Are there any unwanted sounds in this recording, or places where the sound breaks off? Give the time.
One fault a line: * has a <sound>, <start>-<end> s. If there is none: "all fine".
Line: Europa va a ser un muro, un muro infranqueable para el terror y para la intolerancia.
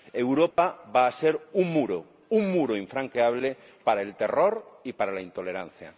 * has a dropout, 0.5-0.6 s